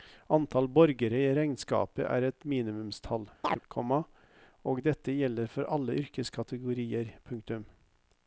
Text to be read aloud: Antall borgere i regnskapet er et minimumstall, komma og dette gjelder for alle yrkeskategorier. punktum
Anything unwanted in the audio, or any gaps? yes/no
yes